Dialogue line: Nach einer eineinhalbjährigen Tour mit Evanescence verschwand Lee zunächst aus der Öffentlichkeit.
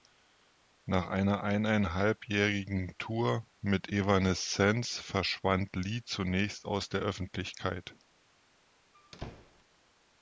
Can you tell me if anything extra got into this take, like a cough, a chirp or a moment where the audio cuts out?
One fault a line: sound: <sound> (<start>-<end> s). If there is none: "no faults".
sound: squeak (8.9-9.6 s)